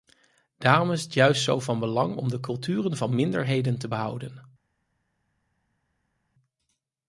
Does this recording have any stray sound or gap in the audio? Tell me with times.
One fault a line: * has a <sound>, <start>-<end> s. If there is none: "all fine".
all fine